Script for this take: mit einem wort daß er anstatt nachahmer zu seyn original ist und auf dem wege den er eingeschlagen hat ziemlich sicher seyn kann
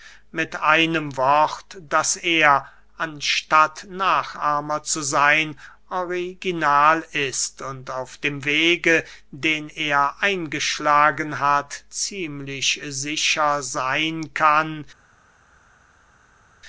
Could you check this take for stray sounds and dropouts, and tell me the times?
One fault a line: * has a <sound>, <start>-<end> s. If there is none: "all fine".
all fine